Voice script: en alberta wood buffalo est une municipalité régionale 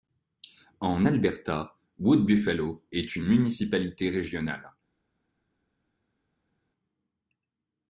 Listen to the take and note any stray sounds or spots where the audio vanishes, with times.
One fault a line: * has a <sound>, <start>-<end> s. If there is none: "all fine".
all fine